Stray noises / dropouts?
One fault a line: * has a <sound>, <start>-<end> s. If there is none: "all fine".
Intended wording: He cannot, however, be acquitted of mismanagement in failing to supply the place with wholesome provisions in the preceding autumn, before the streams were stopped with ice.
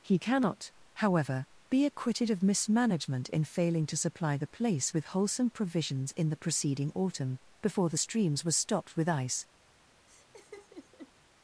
* has a laugh, 10.1-11.1 s